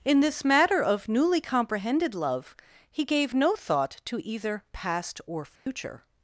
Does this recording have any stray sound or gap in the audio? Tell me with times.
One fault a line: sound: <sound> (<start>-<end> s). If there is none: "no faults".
sound: dropout (5.6-5.7 s)